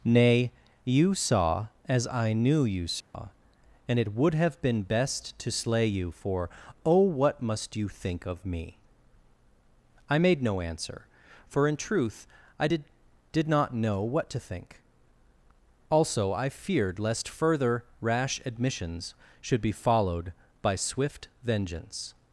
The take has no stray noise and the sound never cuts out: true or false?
false